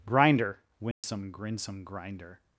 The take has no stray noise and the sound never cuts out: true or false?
false